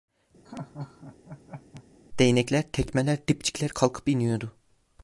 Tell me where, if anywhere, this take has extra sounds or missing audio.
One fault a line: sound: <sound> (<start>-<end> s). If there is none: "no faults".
sound: laugh (0.4-1.8 s)